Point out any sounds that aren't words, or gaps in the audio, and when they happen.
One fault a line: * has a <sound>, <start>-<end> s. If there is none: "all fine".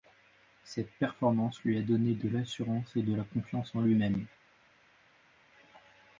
all fine